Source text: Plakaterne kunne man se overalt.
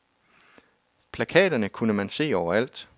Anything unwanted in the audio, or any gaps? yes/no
no